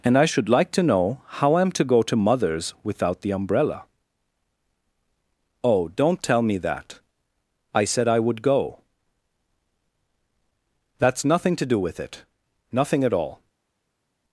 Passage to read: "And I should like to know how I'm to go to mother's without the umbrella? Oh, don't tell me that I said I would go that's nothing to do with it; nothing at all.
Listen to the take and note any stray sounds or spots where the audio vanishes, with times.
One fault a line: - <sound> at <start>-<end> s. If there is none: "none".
none